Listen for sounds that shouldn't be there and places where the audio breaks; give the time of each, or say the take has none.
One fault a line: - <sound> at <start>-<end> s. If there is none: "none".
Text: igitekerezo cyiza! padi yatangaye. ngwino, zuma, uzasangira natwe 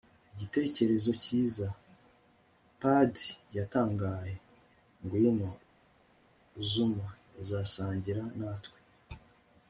none